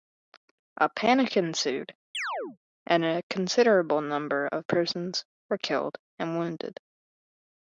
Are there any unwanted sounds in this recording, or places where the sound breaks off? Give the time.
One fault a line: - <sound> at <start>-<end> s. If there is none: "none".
- chirp at 2.1-2.6 s